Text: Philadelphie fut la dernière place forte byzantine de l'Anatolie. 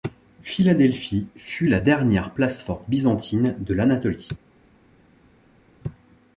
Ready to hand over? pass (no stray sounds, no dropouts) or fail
pass